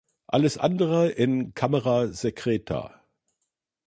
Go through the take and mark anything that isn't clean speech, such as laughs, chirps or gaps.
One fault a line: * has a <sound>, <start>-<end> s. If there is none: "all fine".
all fine